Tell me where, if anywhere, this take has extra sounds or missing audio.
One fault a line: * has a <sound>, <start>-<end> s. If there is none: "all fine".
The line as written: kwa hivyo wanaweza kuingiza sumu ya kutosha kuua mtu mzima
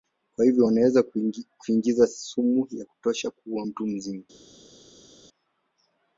all fine